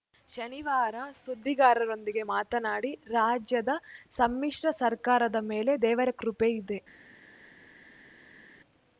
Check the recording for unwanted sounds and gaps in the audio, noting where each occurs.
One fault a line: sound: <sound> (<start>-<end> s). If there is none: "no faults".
no faults